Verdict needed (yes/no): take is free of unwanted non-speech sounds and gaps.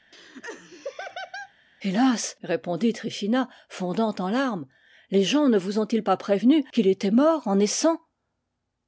no